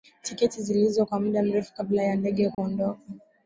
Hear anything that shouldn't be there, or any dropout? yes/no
yes